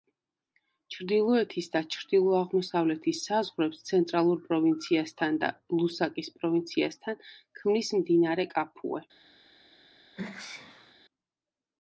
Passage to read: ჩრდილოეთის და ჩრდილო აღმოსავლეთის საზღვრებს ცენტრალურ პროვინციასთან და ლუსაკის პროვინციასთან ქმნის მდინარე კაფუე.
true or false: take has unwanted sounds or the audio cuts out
true